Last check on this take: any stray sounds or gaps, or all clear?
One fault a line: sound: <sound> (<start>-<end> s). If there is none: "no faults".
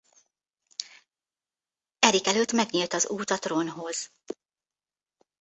no faults